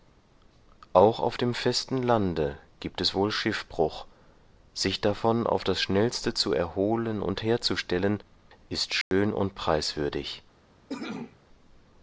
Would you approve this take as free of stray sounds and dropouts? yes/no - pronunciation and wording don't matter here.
no